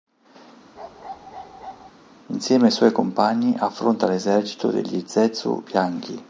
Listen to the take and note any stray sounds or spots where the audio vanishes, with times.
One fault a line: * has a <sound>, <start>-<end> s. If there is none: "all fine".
* has a bark, 0.8-1.9 s